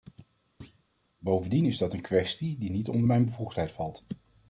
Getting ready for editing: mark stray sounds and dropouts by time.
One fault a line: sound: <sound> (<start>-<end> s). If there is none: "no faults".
sound: thud (0.6-0.8 s)